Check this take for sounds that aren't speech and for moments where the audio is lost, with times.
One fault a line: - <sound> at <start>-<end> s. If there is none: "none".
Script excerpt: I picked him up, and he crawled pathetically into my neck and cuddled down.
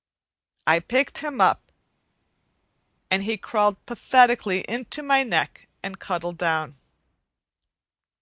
none